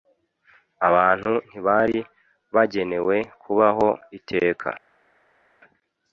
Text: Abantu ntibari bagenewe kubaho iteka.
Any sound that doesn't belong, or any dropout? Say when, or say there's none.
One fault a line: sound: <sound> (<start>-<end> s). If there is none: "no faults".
no faults